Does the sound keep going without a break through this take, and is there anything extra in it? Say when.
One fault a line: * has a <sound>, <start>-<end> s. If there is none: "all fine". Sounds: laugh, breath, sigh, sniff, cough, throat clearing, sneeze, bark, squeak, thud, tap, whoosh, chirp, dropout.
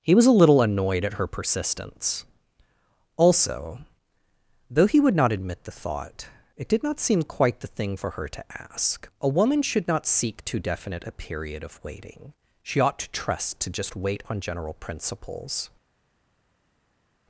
all fine